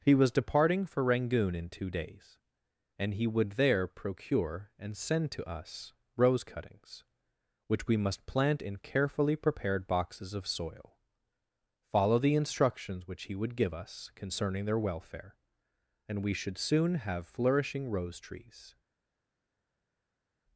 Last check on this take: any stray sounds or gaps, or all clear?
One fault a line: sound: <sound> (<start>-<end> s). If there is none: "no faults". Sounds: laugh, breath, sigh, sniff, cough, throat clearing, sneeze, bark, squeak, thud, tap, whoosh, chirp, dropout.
no faults